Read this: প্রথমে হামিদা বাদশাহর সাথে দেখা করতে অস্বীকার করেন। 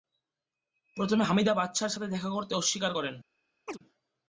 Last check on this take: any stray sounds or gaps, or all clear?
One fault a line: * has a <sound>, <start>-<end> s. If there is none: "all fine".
* has a chirp, 3.7-3.8 s